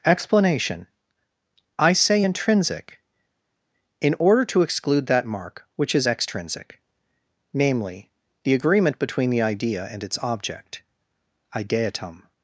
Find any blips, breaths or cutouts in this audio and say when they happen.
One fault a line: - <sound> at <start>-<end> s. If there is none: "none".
none